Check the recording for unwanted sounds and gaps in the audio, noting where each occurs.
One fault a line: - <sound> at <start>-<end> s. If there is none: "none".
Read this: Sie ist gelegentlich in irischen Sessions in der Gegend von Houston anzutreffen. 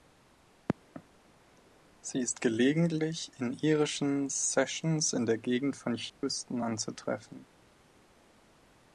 - dropout at 6.1-6.2 s